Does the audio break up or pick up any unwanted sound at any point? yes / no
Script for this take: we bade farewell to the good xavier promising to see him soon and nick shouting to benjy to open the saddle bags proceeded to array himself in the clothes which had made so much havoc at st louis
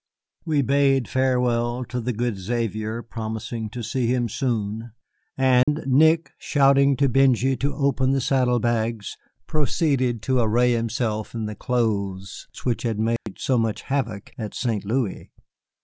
yes